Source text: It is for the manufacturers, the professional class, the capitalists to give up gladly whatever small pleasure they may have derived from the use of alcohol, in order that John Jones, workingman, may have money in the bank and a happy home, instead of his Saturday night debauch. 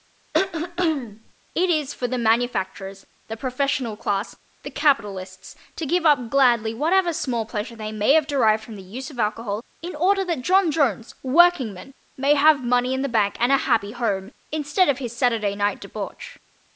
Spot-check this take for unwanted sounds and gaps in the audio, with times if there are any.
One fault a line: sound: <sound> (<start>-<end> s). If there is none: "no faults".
sound: throat clearing (0.3-1.3 s)